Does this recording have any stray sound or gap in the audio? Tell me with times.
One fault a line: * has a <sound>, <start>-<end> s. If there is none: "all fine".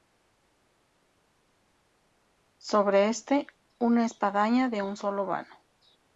all fine